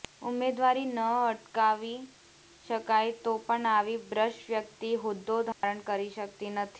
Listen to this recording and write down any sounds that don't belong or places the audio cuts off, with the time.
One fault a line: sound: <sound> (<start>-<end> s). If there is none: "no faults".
sound: dropout (5.5-5.6 s)